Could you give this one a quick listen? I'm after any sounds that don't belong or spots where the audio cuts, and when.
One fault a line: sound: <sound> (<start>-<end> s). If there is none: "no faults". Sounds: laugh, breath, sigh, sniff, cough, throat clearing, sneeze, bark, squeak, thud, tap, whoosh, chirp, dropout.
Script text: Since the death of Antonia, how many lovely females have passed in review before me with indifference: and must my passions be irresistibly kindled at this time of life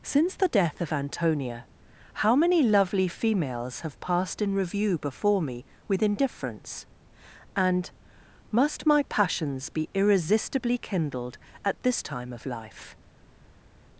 no faults